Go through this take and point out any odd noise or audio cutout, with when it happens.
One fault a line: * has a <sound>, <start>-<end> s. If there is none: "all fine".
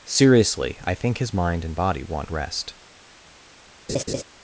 * has a laugh, 3.9-4.2 s